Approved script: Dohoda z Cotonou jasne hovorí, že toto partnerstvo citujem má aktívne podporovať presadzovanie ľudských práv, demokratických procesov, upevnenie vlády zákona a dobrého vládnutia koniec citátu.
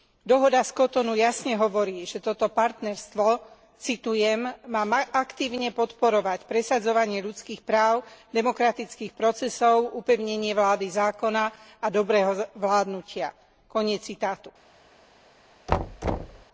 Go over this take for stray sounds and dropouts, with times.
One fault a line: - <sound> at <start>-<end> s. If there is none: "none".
- thud at 15.7-16.5 s